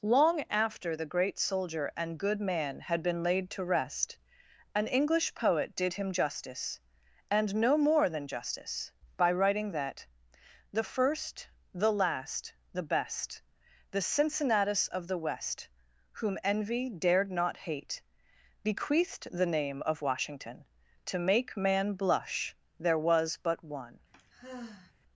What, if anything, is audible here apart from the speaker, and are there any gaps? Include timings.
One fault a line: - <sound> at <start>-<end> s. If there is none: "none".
- sigh at 24.1-24.9 s